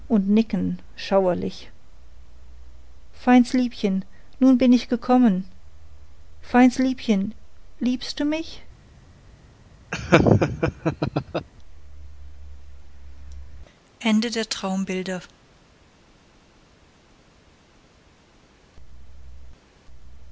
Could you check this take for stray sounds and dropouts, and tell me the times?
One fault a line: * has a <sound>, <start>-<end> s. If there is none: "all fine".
* has a laugh, 9.9-11.5 s